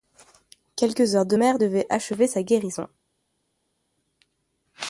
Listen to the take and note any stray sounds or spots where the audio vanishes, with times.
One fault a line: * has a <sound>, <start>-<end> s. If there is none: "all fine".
all fine